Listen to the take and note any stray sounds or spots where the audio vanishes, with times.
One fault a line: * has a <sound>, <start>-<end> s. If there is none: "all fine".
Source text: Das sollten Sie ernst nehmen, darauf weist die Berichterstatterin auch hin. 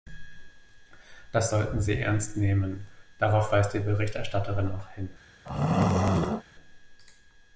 * has a throat clearing, 5.5-6.4 s